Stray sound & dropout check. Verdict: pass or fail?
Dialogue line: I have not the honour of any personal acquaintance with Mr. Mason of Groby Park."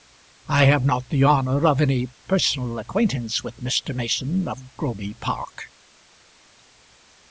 pass